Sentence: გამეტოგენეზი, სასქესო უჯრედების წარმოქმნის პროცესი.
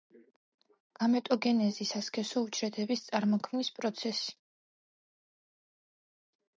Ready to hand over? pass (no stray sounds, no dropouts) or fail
pass